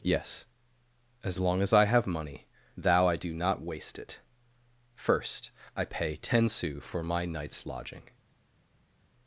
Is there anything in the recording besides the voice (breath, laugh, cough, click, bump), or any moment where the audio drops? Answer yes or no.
no